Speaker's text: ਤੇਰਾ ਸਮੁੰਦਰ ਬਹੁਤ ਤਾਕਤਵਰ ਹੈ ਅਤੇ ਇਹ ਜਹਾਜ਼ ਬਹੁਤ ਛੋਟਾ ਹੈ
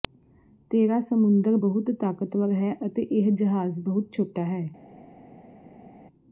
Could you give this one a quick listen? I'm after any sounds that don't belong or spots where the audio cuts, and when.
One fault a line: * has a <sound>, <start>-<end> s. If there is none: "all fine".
all fine